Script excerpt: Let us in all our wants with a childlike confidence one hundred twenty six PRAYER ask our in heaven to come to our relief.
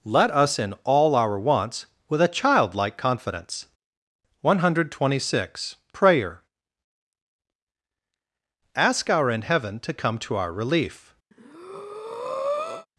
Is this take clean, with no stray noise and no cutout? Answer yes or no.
no